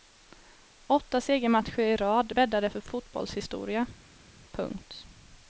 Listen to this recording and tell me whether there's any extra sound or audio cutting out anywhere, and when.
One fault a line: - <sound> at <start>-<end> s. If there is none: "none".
none